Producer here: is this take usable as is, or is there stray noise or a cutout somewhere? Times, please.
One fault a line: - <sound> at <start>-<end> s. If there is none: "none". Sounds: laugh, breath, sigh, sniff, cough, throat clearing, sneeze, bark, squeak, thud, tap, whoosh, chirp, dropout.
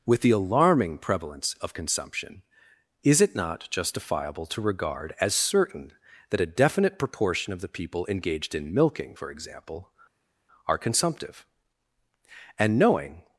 none